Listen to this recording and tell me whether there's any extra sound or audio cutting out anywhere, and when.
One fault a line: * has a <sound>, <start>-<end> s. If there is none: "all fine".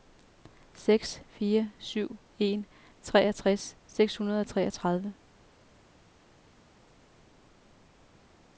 all fine